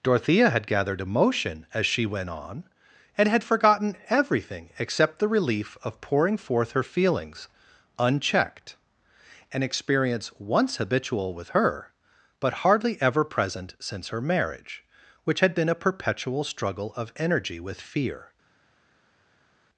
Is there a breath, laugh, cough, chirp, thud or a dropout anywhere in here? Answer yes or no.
no